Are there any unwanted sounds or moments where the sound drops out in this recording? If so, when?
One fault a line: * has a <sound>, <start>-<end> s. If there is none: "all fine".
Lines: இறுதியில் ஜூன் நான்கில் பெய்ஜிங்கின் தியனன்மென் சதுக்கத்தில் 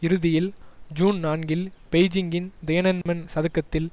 * has a dropout, 3.0-3.1 s